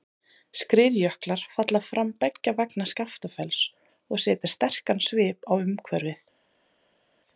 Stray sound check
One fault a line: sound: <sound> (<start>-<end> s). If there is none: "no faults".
no faults